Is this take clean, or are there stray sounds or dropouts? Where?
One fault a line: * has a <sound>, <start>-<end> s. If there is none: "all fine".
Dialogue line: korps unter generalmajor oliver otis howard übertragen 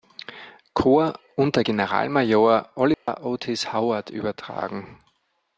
* has a dropout, 2.9-3.1 s